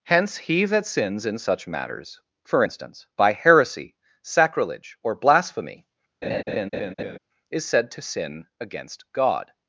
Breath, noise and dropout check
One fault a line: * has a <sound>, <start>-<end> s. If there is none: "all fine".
* has a laugh, 6.2-7.2 s